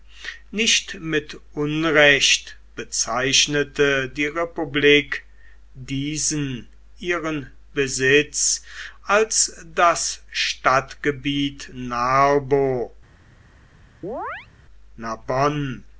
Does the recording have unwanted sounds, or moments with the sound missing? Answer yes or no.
yes